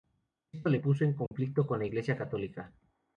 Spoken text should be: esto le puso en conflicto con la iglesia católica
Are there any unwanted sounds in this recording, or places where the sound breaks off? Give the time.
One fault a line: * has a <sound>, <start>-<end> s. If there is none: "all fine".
* has a dropout, 1.3-1.3 s